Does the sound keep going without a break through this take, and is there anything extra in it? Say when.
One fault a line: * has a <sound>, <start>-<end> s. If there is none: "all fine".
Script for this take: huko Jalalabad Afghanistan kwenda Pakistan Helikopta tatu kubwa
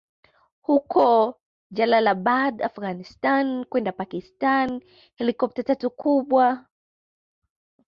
all fine